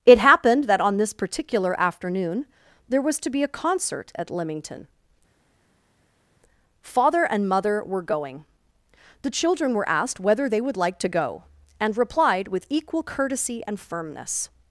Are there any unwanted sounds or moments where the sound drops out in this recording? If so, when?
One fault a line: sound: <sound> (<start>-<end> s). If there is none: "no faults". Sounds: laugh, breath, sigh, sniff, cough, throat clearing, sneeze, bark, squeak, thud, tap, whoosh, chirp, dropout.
no faults